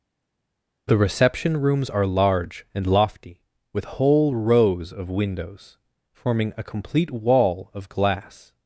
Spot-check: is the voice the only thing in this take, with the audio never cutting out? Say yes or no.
yes